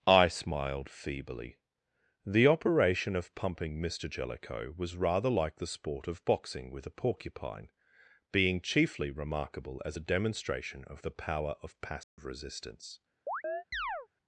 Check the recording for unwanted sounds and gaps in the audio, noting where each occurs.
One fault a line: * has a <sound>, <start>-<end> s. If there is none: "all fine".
* has a dropout, 12.0-12.2 s
* has a chirp, 13.3-14.1 s